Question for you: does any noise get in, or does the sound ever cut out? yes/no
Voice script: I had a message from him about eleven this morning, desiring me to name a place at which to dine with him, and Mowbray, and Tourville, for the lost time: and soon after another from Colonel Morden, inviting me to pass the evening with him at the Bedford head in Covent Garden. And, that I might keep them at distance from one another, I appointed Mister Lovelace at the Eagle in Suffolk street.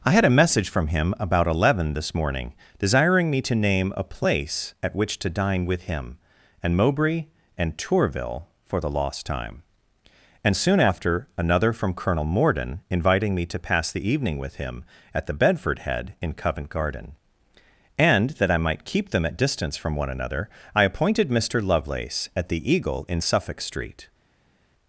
no